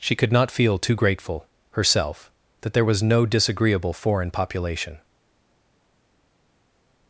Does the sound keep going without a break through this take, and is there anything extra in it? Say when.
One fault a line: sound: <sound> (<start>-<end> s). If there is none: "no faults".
no faults